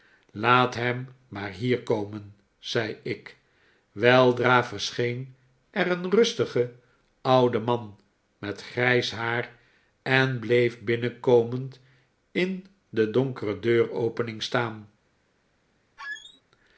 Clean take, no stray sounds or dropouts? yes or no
no